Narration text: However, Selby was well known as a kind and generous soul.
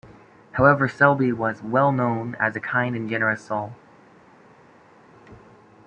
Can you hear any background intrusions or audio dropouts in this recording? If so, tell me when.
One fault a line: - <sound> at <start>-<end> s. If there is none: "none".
none